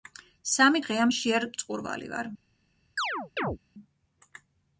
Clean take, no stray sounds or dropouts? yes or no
no